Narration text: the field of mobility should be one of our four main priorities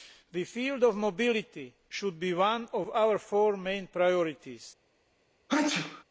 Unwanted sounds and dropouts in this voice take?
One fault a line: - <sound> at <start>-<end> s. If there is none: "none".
- sneeze at 5.5-6.0 s